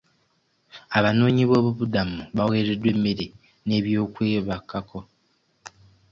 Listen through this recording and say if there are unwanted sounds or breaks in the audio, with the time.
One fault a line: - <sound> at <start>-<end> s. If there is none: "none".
none